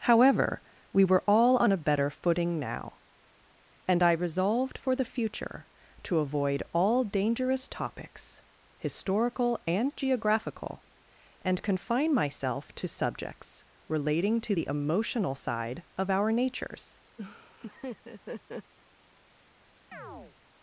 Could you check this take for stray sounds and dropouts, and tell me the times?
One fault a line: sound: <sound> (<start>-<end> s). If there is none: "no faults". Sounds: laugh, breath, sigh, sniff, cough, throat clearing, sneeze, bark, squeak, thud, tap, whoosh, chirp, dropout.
sound: laugh (17.2-18.7 s)
sound: chirp (19.9-20.4 s)